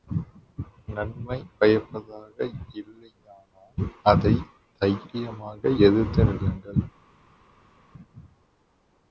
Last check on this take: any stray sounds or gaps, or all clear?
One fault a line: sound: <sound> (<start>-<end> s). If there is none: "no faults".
no faults